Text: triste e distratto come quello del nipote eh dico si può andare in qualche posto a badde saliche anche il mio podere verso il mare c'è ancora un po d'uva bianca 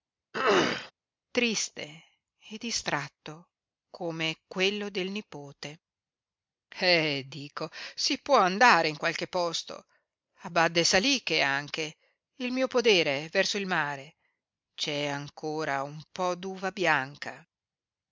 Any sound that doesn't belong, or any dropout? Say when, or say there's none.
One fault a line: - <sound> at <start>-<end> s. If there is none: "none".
- throat clearing at 0.3-0.9 s